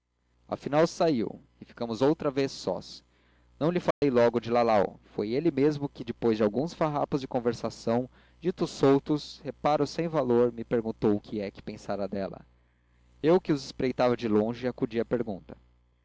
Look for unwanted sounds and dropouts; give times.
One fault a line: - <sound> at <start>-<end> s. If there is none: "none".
- dropout at 3.9-4.0 s